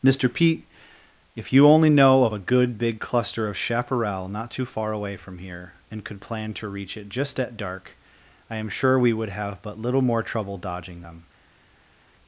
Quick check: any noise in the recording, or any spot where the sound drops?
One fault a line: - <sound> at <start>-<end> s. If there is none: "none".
none